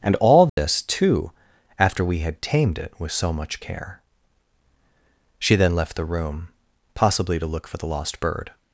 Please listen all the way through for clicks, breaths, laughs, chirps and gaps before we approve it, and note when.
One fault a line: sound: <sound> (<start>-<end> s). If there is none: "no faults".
sound: dropout (0.5-0.6 s)